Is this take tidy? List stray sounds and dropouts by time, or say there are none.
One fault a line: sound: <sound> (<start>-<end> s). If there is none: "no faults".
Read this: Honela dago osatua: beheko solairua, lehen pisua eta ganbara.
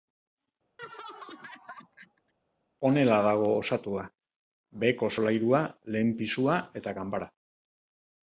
sound: laugh (0.8-2.3 s)